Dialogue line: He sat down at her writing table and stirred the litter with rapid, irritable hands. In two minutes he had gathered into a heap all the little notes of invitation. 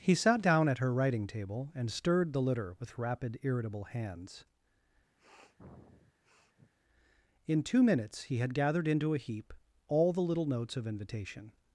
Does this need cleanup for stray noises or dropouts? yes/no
yes